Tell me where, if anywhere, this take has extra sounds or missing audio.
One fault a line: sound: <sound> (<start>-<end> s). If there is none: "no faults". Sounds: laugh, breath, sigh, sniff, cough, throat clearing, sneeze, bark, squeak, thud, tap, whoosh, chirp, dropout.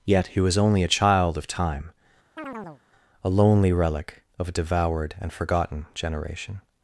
sound: chirp (2.4-2.8 s)